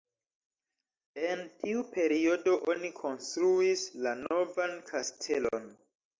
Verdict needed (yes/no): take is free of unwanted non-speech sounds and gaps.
yes